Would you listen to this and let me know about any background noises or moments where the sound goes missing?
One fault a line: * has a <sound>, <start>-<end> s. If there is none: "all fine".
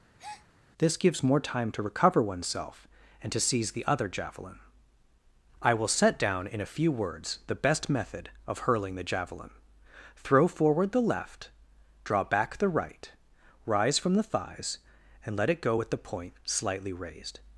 * has a breath, 0.2-0.5 s